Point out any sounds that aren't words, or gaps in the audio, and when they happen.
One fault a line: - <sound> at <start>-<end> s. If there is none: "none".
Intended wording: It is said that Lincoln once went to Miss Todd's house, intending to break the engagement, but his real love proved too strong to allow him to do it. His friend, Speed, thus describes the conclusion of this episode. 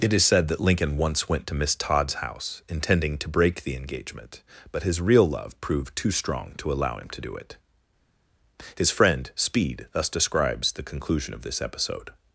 none